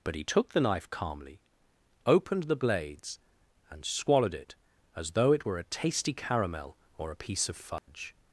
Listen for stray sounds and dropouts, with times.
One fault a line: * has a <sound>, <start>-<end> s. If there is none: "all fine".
* has a dropout, 7.8-7.9 s